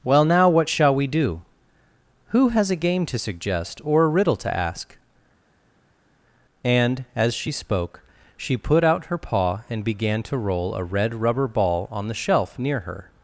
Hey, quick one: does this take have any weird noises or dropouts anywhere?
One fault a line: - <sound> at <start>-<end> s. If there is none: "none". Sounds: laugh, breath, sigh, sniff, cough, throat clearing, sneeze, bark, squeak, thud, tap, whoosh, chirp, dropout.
none